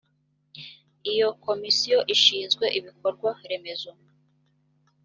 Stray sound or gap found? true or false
false